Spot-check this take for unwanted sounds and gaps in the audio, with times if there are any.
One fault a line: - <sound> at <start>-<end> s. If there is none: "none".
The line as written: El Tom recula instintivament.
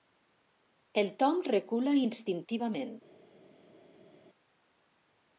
none